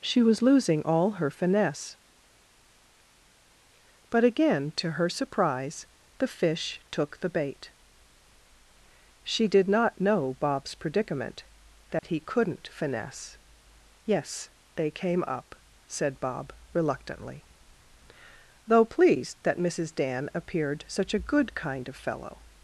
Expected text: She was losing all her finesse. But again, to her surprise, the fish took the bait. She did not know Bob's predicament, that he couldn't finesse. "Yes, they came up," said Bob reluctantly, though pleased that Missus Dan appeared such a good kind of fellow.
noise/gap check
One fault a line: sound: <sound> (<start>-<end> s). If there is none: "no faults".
sound: dropout (12.0-12.0 s)